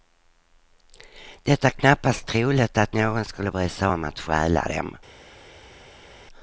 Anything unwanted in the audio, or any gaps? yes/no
no